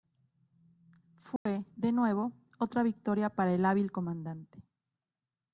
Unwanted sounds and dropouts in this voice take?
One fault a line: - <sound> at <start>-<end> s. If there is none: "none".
- dropout at 1.4-1.5 s